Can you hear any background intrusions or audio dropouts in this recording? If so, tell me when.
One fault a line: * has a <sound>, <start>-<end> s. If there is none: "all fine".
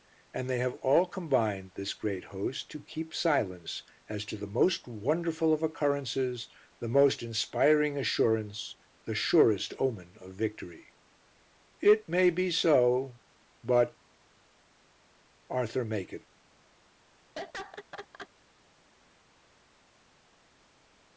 * has a laugh, 17.4-18.3 s